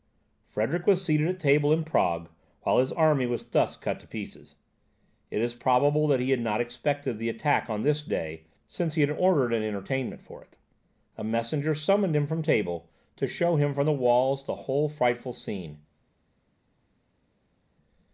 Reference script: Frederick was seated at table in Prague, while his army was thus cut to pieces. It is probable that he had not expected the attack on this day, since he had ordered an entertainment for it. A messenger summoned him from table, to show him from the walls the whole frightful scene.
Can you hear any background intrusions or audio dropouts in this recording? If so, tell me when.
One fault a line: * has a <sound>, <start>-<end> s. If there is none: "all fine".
all fine